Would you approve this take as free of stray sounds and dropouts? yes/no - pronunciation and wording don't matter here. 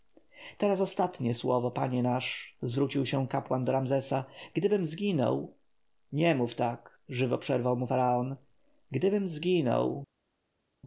yes